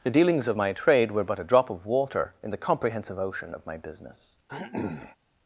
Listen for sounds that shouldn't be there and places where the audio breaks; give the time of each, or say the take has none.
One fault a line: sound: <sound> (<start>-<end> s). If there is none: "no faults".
sound: throat clearing (4.5-5.2 s)